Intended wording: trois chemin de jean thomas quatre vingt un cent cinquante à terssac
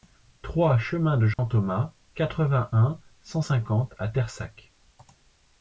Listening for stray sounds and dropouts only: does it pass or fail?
fail